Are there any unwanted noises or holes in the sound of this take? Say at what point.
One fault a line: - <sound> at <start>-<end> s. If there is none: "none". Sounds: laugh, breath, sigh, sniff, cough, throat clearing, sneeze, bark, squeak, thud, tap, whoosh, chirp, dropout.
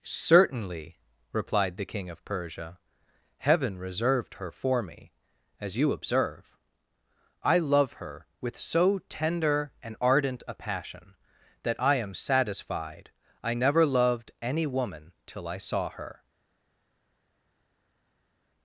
none